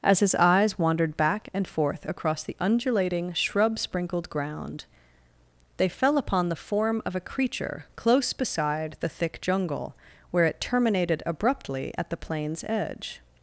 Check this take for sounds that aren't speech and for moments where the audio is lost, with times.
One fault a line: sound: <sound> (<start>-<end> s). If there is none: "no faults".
no faults